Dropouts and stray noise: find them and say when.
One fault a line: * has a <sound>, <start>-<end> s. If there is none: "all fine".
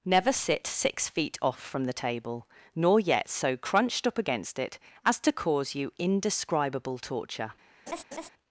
* has a laugh, 7.9-8.3 s